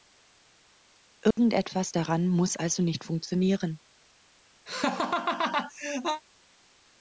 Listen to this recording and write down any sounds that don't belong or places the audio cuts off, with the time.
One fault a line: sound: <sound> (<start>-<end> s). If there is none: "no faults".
sound: dropout (1.3-1.4 s)
sound: laugh (4.7-6.2 s)